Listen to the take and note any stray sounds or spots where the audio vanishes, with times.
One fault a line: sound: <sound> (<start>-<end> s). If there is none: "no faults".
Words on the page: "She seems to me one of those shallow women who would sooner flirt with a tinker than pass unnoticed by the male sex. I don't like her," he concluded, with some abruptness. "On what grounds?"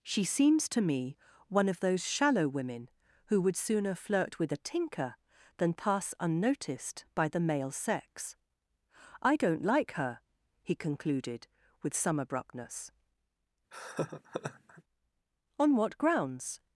sound: laugh (13.7-14.8 s)